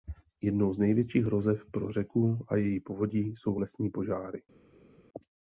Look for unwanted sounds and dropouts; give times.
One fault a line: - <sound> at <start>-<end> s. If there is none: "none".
none